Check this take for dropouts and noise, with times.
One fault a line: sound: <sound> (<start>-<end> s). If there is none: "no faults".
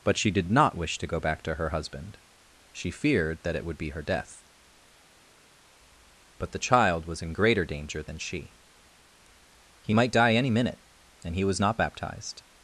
no faults